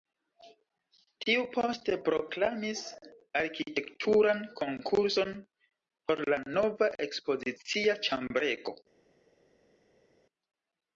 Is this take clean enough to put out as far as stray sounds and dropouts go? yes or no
yes